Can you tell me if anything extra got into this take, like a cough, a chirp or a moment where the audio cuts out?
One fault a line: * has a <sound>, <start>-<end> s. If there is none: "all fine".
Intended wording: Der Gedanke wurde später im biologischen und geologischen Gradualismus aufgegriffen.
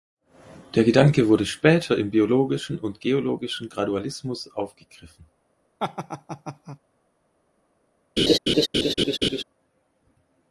* has a laugh, 5.8-6.8 s
* has a laugh, 8.2-9.4 s